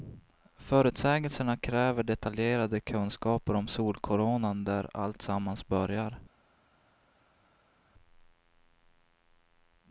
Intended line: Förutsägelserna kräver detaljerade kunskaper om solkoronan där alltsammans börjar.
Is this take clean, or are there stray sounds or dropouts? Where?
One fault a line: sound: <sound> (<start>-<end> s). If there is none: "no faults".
no faults